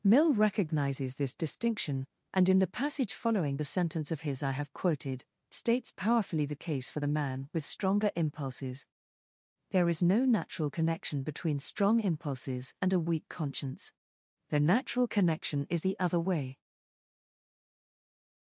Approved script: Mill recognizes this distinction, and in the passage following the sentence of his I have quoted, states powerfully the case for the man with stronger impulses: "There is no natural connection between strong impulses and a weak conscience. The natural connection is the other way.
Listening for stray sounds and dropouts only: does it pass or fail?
pass